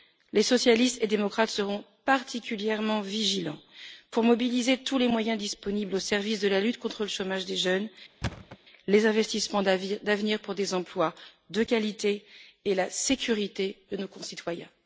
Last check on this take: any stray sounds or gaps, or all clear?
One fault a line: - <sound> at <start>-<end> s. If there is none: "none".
- thud at 8.2-8.6 s